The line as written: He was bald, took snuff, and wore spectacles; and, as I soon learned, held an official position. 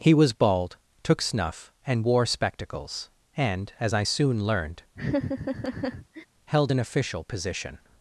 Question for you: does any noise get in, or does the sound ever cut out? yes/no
yes